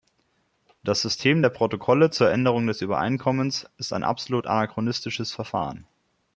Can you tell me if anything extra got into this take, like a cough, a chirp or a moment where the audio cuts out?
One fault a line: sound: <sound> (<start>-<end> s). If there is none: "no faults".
no faults